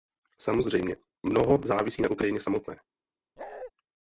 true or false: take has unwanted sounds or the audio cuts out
true